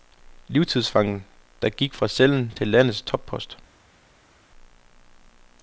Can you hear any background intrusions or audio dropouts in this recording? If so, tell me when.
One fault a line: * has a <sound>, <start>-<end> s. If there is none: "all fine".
all fine